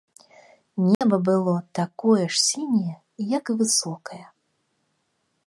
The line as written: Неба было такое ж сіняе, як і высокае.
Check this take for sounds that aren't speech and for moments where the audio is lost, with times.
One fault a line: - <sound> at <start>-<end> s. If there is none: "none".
- dropout at 0.9-1.0 s